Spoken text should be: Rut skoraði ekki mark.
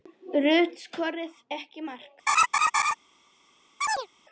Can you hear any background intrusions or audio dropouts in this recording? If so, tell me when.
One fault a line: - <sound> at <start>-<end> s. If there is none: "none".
- laugh at 2.3-2.9 s
- chirp at 3.8-4.1 s